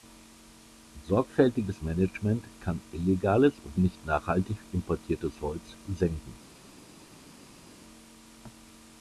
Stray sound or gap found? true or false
false